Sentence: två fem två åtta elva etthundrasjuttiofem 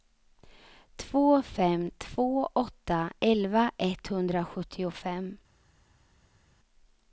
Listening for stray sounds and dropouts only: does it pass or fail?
pass